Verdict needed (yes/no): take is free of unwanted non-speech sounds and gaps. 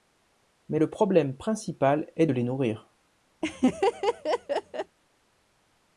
no